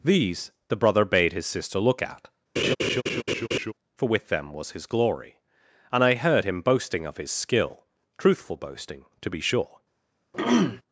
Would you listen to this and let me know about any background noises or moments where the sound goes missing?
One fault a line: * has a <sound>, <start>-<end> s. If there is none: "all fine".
* has a laugh, 2.6-3.7 s
* has a throat clearing, 10.3-10.8 s